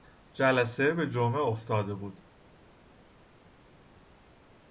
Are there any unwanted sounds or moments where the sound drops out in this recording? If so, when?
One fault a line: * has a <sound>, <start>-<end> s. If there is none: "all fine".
all fine